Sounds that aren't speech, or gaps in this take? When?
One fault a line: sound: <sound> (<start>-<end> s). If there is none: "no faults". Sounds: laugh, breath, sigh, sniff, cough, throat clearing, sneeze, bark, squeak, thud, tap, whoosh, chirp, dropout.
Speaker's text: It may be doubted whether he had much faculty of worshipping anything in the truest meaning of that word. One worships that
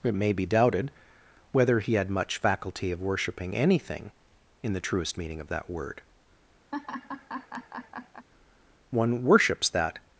sound: laugh (6.7-8.3 s)